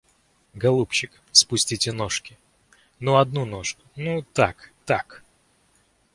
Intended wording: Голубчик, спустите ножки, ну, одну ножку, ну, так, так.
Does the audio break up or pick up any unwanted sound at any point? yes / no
no